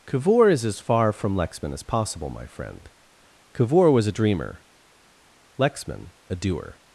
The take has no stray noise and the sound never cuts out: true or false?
true